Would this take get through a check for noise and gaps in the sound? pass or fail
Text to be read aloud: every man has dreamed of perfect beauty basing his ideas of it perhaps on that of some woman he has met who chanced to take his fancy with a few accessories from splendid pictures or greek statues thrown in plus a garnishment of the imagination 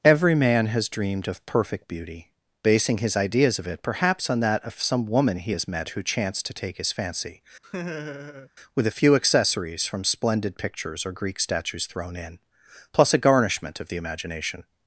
fail